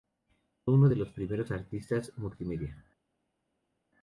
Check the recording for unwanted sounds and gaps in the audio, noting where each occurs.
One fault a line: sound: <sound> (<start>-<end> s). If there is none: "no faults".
no faults